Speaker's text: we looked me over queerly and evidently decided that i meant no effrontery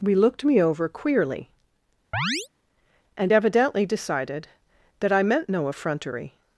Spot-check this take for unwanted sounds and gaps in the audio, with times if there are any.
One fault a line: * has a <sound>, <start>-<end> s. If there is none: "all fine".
* has a chirp, 2.1-2.5 s